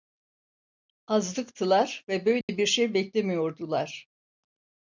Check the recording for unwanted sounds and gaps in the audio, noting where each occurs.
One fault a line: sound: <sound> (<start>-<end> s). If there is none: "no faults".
sound: dropout (2.4-2.5 s)